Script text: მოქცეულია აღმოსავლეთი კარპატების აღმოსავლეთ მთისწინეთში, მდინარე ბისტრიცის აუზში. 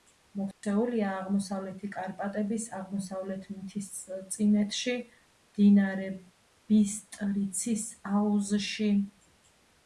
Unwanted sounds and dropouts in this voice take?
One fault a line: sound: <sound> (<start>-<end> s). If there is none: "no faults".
sound: dropout (0.5-0.6 s)